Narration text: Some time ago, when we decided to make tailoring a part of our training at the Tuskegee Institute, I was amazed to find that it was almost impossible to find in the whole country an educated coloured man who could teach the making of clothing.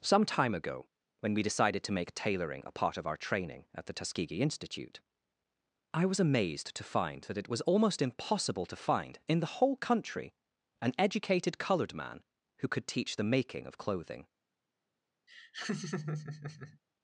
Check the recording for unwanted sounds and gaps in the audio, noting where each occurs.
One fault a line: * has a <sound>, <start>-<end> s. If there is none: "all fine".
* has a laugh, 15.3-16.8 s